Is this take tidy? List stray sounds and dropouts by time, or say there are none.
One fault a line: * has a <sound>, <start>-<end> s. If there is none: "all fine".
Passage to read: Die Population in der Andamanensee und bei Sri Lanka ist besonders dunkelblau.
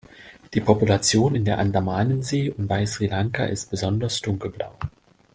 all fine